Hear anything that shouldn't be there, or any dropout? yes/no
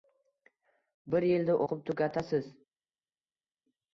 no